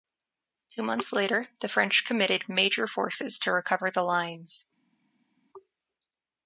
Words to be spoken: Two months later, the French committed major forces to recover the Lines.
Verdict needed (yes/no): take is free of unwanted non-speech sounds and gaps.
yes